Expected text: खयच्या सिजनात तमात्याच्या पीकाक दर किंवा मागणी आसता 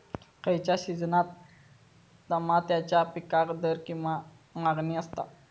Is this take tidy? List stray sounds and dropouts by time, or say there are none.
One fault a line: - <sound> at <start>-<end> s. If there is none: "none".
none